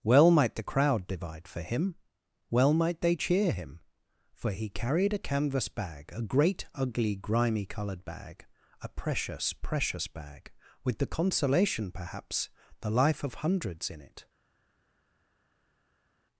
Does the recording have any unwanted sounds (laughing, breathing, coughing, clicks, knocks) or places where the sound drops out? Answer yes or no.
no